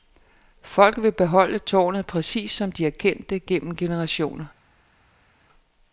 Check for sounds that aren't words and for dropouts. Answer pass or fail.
pass